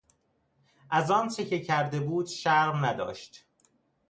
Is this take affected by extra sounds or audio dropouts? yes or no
no